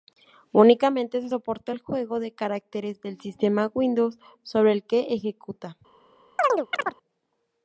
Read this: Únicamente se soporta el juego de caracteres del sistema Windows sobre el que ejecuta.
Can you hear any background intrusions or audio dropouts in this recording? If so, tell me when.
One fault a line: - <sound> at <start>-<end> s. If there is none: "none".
- chirp at 6.4-7.0 s